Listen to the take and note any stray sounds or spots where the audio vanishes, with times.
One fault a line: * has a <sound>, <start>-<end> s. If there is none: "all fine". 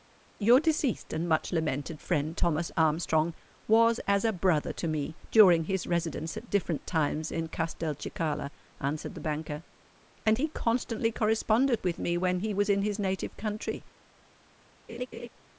* has a laugh, 14.9-15.3 s